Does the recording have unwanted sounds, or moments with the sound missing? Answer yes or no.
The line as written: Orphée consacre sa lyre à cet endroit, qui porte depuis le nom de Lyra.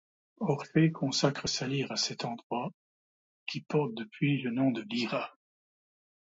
no